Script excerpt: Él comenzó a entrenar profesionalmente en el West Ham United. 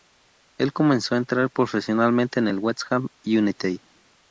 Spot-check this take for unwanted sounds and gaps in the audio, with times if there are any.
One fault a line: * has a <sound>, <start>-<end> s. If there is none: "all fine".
all fine